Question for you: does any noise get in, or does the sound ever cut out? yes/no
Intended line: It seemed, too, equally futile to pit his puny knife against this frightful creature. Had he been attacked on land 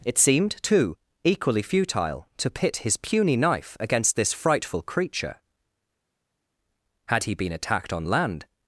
no